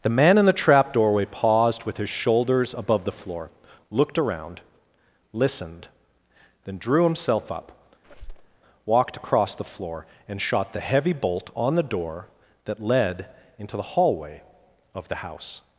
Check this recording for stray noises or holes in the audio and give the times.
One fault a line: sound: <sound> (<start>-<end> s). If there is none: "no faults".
sound: squeak (8.0-8.6 s)